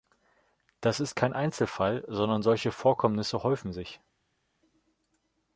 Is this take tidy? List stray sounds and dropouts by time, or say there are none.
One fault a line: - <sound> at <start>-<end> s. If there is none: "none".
none